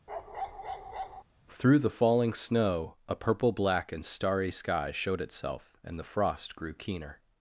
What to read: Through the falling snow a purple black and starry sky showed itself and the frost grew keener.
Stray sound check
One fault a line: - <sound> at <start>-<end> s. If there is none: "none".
- bark at 0.1-1.2 s